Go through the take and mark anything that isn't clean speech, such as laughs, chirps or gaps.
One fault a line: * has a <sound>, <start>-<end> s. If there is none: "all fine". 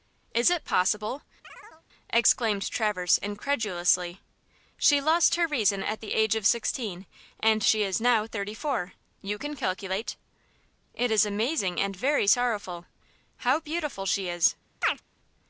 * has a chirp, 1.4-1.8 s
* has a chirp, 14.8-15.0 s